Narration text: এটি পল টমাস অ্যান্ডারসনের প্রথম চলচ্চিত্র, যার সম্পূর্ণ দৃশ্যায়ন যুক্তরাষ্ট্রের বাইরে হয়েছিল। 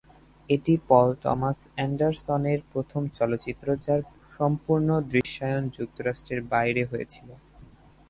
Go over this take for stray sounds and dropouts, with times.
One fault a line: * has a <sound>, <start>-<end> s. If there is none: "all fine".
* has a dropout, 5.2-5.2 s